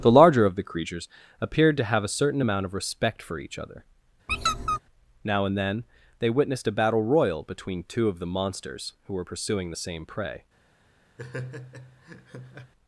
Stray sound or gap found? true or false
true